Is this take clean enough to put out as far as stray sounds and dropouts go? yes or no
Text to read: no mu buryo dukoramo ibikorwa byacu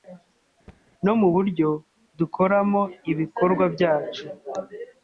no